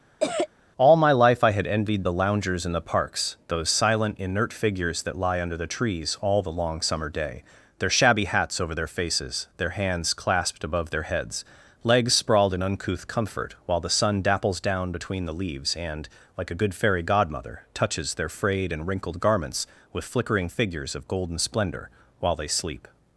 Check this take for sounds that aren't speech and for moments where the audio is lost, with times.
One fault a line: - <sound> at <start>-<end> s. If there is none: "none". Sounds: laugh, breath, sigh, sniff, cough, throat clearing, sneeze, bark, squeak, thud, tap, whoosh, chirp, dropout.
- cough at 0.2-0.5 s